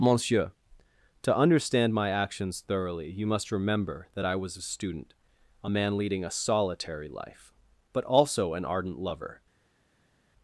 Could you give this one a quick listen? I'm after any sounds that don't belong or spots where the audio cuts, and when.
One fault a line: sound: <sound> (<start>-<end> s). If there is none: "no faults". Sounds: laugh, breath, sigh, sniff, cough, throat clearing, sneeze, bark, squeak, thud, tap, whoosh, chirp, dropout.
no faults